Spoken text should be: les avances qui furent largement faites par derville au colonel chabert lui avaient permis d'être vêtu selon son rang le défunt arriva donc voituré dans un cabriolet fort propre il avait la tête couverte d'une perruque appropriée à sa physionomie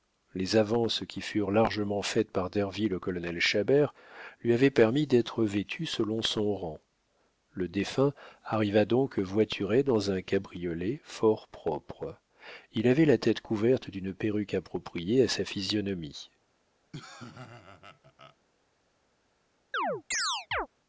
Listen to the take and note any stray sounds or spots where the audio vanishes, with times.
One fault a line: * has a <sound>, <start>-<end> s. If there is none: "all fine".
* has a laugh, 16.9-18.4 s
* has a chirp, 19.7-20.7 s